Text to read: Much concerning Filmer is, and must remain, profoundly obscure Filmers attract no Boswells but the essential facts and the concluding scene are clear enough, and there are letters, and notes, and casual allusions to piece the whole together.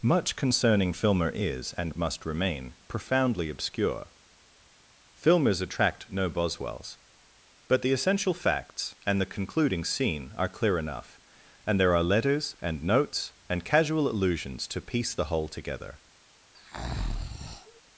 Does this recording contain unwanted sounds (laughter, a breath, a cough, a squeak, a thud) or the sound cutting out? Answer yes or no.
yes